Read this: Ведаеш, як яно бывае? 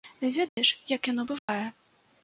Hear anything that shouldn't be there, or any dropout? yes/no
yes